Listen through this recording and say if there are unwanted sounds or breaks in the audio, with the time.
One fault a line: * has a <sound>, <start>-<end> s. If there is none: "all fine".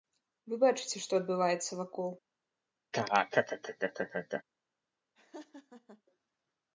* has a laugh, 2.9-4.4 s
* has a laugh, 5.1-6.0 s